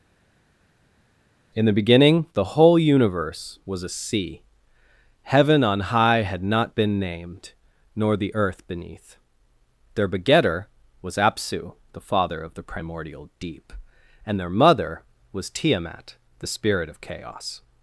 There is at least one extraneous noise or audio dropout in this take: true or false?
false